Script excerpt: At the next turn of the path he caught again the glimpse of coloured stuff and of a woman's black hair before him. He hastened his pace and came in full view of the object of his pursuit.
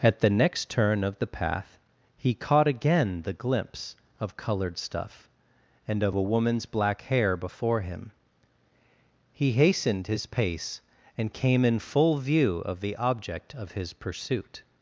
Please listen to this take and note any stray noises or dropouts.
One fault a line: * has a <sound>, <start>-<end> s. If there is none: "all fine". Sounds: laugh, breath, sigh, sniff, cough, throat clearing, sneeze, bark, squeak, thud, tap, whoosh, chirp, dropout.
all fine